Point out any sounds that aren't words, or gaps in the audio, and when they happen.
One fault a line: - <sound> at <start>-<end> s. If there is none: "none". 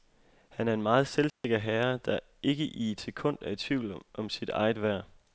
- dropout at 1.3-1.4 s